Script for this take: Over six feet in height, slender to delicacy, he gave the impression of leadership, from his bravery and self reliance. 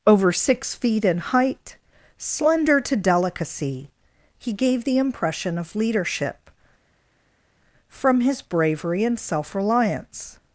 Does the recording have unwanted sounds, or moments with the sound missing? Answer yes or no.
no